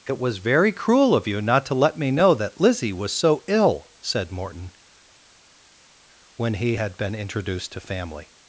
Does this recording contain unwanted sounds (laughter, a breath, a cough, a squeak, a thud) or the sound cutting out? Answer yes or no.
no